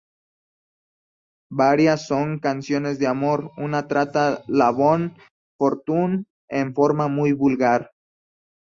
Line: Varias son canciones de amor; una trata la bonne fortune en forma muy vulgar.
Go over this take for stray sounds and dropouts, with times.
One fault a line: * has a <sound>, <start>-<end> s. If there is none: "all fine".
all fine